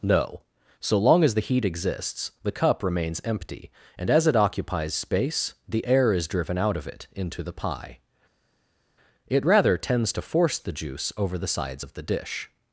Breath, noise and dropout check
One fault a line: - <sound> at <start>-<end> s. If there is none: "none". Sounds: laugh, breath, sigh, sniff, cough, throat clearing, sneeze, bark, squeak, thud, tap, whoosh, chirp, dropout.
none